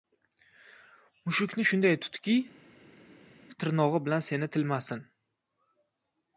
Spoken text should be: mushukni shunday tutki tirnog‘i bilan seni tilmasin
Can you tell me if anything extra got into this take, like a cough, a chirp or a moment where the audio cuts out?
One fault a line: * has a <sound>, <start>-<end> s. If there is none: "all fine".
all fine